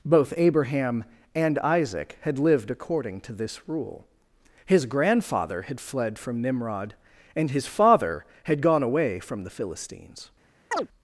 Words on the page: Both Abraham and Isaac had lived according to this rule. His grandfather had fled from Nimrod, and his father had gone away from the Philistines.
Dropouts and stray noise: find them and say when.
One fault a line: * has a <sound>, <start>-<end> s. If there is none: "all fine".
* has a chirp, 10.7-10.9 s